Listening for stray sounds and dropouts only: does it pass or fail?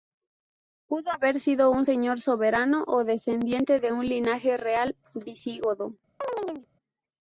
fail